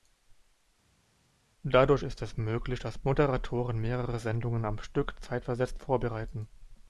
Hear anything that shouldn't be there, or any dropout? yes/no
no